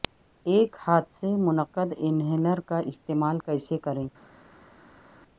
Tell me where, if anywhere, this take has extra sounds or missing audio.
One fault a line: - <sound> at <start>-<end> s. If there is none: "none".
none